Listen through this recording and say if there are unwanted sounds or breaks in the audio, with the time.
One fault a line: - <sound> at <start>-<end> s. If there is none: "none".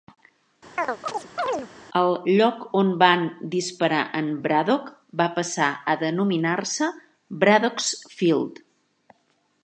- chirp at 0.8-1.7 s